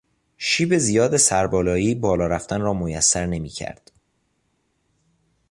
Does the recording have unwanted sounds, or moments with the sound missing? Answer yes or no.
no